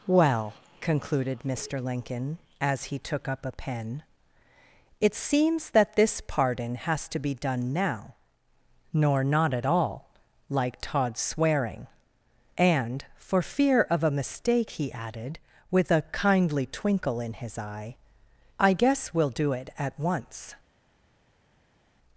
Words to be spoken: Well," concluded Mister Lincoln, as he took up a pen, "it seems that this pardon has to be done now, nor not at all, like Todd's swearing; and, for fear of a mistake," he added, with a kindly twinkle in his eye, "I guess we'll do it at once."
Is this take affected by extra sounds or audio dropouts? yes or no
no